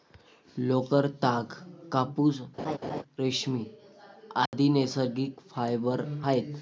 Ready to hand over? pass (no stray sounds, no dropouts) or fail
fail